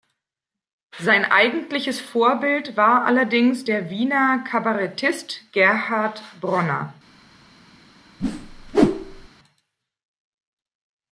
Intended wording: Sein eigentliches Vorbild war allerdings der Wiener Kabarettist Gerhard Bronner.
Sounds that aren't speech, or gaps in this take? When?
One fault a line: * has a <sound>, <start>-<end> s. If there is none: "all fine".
* has a whoosh, 8.2-9.3 s